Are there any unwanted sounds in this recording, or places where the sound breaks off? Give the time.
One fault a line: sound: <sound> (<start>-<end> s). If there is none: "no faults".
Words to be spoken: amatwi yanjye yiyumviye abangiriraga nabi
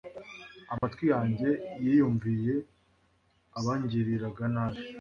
sound: dropout (0.8-0.8 s)